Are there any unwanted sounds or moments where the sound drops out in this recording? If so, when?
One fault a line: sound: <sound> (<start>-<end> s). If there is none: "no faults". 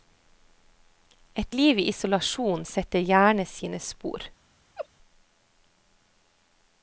sound: laugh (4.8-4.9 s)